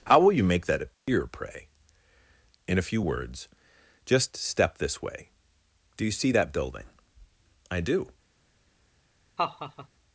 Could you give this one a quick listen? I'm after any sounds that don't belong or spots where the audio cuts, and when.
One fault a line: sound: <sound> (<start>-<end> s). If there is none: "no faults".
sound: dropout (0.9-1.1 s)
sound: laugh (9.4-9.9 s)